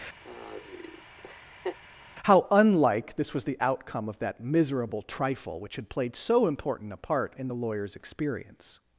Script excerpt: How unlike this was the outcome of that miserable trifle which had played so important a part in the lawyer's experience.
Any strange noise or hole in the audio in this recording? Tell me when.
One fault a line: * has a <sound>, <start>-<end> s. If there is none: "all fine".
* has a laugh, 0.2-1.8 s